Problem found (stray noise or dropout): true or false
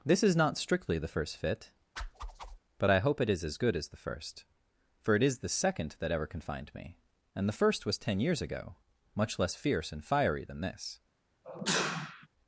true